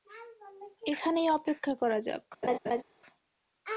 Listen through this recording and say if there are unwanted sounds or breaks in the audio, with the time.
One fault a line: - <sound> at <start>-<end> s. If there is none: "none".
- laugh at 2.4-2.8 s